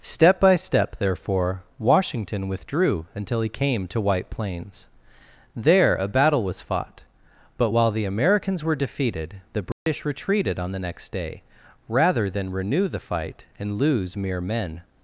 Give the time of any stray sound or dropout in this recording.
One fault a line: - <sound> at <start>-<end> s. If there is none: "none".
- dropout at 9.7-9.9 s